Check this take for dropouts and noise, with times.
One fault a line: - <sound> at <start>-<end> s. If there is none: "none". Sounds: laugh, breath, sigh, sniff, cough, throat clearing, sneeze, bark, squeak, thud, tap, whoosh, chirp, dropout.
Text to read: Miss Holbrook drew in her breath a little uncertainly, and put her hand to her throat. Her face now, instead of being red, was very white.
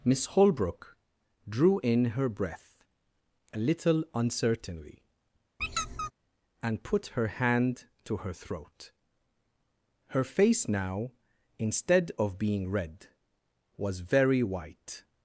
- squeak at 5.6-6.1 s